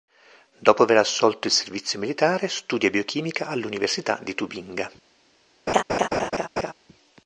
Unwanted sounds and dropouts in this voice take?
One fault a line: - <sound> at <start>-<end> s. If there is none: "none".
- laugh at 5.7-6.7 s